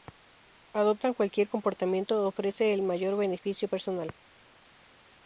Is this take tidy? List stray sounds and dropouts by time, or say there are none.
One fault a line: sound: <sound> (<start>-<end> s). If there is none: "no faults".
no faults